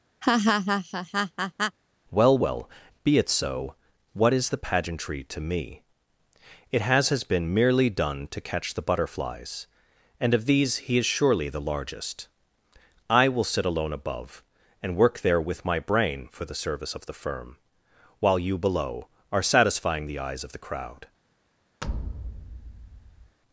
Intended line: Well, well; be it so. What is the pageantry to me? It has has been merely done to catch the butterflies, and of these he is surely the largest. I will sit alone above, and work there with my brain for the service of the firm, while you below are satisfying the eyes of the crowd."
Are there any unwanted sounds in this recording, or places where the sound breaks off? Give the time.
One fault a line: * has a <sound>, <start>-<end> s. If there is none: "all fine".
* has a laugh, 0.2-1.8 s
* has a thud, 21.8-23.4 s